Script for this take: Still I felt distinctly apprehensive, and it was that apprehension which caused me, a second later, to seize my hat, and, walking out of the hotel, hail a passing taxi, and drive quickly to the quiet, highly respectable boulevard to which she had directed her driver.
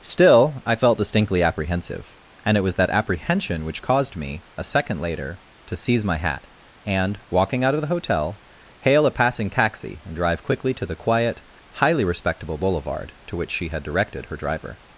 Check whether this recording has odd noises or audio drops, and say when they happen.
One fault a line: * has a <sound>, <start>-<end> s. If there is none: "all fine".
all fine